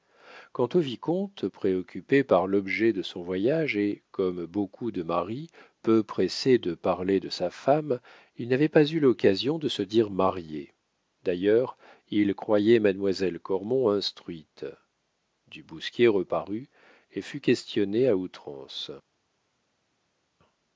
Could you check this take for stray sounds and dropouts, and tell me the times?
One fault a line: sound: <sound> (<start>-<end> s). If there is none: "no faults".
no faults